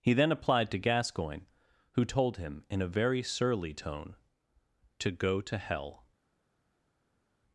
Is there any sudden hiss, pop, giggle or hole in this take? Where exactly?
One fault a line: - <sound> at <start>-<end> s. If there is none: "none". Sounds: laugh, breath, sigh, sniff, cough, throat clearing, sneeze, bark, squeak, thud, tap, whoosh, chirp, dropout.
none